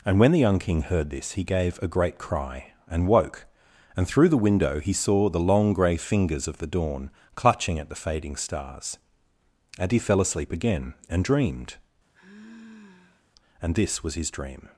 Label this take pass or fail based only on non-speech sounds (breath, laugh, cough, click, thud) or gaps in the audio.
fail